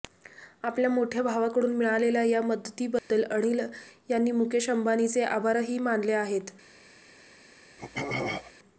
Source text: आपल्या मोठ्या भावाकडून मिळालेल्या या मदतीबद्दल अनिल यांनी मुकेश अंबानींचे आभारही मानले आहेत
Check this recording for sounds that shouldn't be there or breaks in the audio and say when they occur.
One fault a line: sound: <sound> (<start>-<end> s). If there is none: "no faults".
sound: dropout (3.0-3.1 s)
sound: throat clearing (7.8-8.5 s)